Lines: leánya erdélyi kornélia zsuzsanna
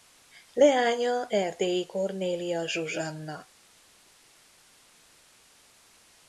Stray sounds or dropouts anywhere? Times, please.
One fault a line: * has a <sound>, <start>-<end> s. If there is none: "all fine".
all fine